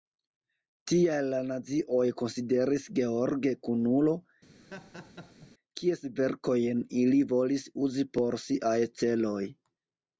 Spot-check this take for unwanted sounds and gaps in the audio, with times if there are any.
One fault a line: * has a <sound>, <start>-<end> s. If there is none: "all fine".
* has a laugh, 4.6-5.5 s